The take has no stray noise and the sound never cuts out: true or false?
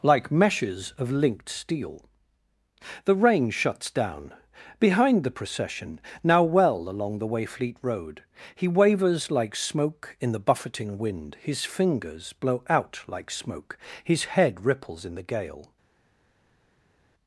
true